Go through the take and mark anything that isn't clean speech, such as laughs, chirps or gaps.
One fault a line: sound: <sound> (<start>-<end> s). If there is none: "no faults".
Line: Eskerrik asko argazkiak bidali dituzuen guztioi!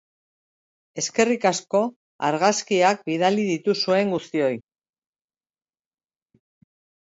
no faults